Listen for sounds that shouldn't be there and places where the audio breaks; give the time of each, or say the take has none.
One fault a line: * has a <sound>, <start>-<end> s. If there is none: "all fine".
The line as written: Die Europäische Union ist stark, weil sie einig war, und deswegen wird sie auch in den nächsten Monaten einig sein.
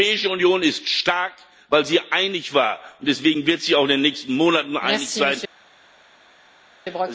all fine